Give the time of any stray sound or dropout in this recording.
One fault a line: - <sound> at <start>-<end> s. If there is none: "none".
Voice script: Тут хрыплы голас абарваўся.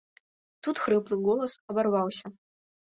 none